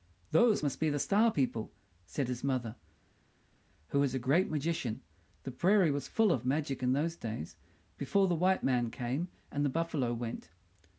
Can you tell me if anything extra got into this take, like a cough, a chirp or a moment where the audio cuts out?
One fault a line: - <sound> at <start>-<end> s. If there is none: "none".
none